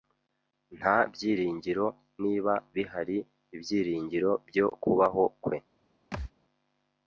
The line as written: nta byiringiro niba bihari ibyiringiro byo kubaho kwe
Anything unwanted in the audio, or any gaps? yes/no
yes